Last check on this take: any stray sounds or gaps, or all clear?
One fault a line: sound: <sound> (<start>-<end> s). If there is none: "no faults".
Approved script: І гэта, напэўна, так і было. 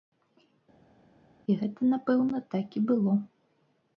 no faults